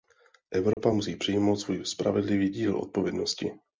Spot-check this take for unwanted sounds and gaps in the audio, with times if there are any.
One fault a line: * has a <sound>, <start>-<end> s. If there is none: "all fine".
* has a dropout, 0.7-0.8 s